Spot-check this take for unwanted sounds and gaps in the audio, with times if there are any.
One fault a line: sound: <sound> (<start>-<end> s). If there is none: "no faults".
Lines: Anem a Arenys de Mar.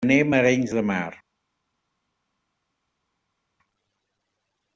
no faults